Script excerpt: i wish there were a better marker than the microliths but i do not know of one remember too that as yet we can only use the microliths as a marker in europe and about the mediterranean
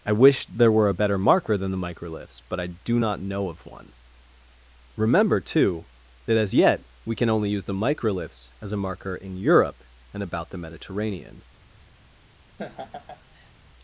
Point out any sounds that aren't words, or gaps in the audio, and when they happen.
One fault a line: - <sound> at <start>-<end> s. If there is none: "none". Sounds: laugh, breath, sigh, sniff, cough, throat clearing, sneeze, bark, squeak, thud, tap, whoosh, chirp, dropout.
- laugh at 12.6-13.5 s